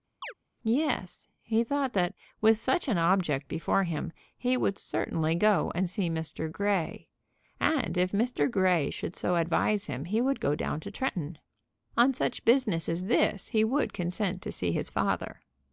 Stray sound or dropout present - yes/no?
yes